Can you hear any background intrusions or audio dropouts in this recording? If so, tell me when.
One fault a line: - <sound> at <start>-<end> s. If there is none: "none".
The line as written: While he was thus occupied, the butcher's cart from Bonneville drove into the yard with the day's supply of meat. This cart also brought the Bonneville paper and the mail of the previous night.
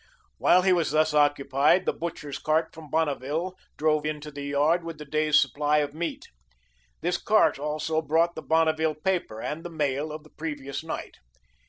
none